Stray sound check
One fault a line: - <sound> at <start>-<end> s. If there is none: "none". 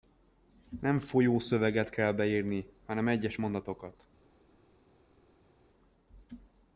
none